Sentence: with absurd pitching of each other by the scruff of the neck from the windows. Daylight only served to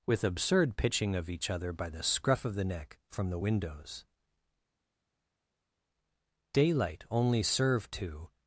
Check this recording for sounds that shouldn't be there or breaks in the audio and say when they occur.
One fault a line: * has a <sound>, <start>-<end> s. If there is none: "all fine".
all fine